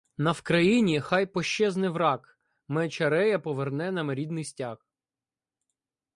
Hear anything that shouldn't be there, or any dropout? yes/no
no